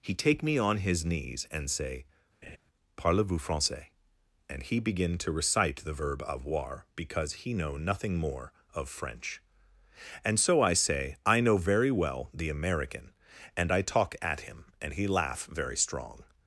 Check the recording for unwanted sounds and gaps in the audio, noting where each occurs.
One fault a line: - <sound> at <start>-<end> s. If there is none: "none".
- laugh at 2.4-2.6 s